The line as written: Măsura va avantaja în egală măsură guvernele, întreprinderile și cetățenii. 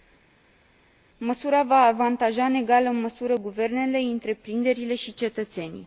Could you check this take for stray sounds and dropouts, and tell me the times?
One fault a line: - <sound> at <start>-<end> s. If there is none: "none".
none